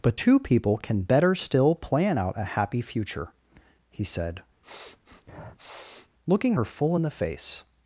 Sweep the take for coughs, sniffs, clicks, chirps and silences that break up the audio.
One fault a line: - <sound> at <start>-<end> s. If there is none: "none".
- sniff at 4.6-6.1 s